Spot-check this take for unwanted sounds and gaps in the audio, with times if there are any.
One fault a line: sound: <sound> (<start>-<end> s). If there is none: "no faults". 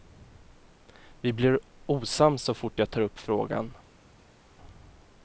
no faults